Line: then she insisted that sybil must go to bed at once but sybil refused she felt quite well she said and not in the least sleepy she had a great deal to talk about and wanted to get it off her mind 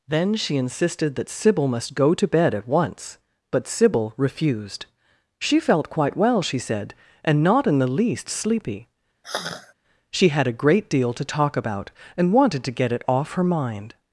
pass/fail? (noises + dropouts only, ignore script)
fail